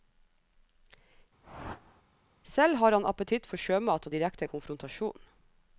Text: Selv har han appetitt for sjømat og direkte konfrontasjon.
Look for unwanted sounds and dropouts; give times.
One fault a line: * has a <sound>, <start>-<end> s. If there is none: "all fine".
* has a whoosh, 1.4-2.0 s